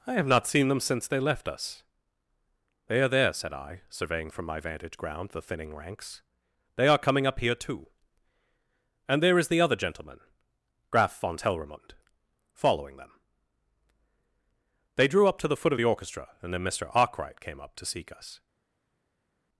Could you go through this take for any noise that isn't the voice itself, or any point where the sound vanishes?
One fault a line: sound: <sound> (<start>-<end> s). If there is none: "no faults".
no faults